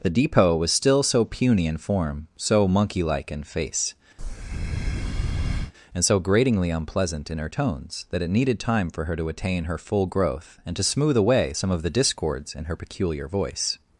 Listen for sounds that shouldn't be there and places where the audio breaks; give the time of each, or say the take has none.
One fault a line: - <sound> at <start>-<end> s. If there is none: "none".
- breath at 4.2-5.7 s